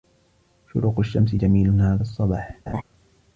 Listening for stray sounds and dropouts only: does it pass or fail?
fail